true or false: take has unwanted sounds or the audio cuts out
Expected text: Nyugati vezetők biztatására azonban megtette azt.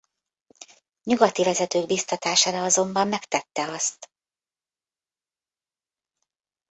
false